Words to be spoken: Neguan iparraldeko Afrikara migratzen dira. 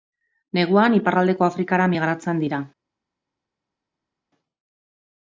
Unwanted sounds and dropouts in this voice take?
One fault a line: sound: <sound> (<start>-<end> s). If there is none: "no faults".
no faults